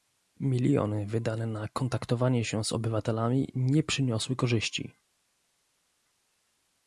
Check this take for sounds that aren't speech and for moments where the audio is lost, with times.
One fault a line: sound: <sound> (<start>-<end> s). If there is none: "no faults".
no faults